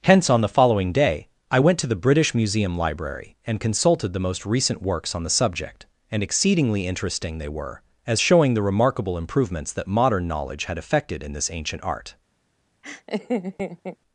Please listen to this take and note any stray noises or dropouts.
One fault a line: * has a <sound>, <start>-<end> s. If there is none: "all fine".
* has a laugh, 12.8-14.0 s